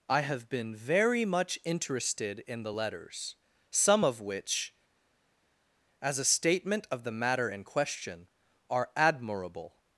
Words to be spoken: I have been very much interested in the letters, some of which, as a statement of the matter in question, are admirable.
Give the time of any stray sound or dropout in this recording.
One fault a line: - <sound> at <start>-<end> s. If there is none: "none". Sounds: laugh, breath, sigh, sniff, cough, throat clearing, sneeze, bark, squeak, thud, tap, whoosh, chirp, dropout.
none